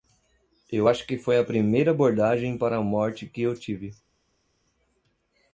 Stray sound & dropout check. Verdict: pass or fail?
pass